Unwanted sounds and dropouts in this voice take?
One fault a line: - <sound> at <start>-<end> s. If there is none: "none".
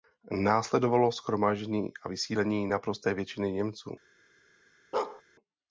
- bark at 4.9-5.2 s